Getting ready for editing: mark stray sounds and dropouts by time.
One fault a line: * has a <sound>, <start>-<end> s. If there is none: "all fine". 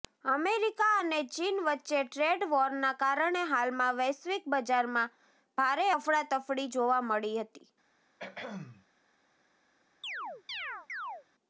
* has a throat clearing, 8.2-8.9 s
* has a chirp, 10.0-11.2 s